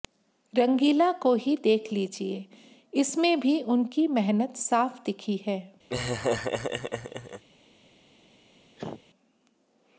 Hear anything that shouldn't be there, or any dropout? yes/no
yes